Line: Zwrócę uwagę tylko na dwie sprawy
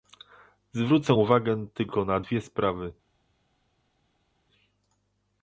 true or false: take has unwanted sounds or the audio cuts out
false